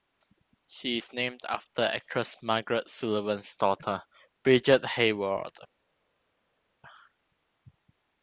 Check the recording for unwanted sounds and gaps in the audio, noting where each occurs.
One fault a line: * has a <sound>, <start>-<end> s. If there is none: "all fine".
all fine